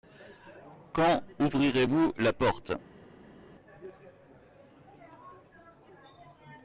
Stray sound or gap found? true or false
false